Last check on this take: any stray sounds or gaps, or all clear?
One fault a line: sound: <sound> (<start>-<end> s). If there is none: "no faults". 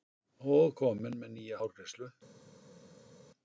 no faults